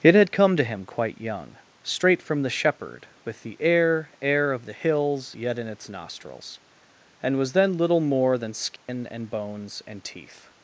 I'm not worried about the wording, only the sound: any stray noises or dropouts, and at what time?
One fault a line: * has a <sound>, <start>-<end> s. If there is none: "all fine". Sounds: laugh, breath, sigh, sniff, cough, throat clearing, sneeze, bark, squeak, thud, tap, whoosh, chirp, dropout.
* has a dropout, 8.8-8.9 s